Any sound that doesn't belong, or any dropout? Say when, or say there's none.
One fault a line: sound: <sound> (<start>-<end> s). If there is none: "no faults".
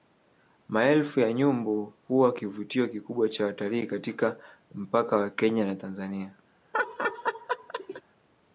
sound: laugh (6.7-8.0 s)